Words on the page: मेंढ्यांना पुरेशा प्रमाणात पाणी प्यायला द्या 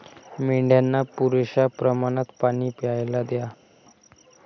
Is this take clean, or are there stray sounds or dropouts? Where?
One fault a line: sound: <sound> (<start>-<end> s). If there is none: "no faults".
no faults